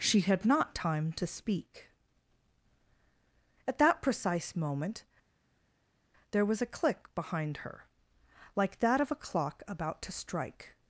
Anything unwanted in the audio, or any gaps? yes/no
no